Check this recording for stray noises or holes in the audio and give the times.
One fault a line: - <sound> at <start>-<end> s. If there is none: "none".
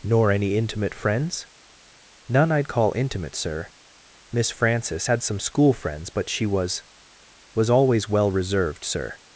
none